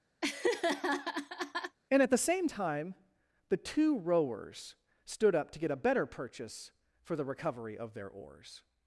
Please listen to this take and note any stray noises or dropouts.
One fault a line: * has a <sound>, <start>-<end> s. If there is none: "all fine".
* has a laugh, 0.2-1.8 s